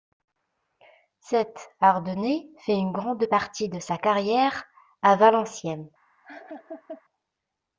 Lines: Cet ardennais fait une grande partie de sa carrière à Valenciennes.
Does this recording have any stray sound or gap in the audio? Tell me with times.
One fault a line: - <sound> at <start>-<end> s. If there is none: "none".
- laugh at 6.2-7.0 s